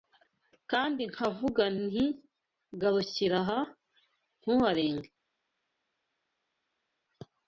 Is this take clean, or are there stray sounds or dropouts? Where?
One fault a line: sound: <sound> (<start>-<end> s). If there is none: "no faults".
no faults